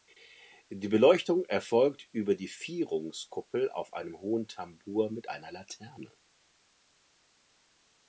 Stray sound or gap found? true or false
false